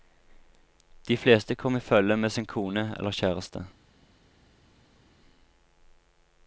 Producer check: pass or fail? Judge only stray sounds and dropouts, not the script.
pass